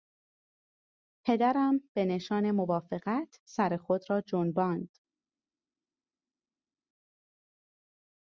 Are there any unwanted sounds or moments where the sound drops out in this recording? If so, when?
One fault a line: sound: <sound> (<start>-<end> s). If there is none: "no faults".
no faults